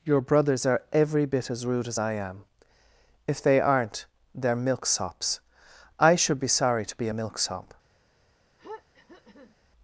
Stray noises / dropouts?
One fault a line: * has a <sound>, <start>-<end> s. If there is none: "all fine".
* has a throat clearing, 8.6-9.6 s